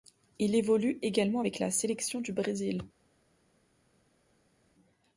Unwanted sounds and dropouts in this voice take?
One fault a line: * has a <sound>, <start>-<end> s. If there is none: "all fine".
all fine